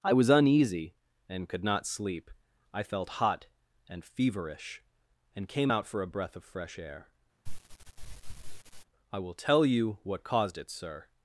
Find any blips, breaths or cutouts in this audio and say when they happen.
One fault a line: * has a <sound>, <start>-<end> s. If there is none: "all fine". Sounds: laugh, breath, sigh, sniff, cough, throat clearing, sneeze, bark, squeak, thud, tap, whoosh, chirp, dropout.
* has a sniff, 7.5-8.9 s